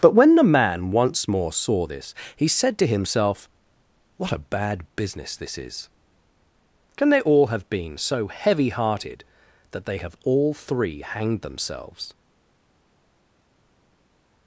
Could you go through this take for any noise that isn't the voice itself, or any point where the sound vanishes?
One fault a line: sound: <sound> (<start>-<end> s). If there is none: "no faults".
no faults